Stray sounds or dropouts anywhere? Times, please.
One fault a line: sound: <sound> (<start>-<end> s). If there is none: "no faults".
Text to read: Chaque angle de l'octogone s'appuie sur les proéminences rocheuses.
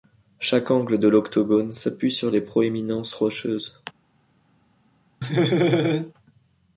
sound: laugh (5.2-6.1 s)